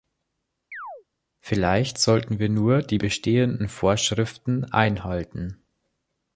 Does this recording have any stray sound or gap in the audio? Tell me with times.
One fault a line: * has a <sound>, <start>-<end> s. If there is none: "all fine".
* has a chirp, 0.7-1.0 s